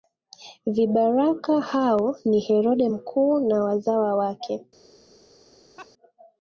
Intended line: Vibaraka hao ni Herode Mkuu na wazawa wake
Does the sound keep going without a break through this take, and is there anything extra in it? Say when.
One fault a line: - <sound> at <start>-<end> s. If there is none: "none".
- laugh at 5.8-5.9 s